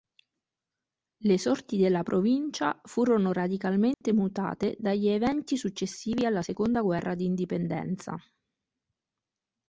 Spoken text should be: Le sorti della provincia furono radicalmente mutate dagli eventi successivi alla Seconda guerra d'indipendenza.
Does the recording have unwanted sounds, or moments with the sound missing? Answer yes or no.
yes